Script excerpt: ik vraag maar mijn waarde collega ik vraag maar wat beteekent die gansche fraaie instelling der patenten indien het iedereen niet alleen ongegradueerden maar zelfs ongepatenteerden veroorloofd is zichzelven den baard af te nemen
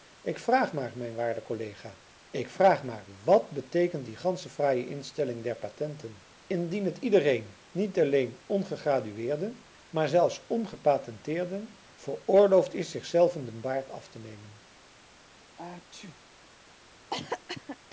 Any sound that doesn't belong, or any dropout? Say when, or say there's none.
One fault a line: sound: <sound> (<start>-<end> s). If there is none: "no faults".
sound: sneeze (15.6-16.2 s)
sound: cough (17.1-17.8 s)